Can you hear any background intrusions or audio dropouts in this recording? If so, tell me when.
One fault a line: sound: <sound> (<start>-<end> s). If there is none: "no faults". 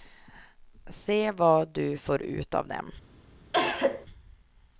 sound: cough (3.5-4.1 s)